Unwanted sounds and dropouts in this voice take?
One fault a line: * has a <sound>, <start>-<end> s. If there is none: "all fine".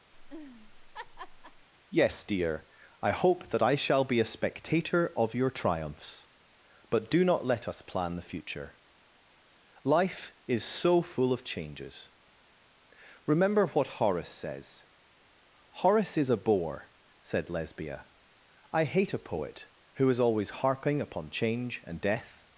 * has a laugh, 0.1-1.7 s